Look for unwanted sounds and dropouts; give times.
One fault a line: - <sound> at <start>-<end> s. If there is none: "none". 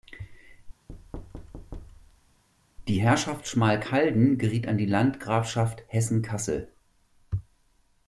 - thud at 0.9-2.4 s